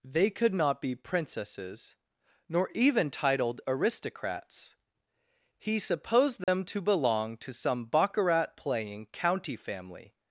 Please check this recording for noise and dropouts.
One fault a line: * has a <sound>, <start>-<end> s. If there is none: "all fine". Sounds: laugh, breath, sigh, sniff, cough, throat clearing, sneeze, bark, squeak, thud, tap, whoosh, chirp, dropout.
* has a dropout, 6.4-6.5 s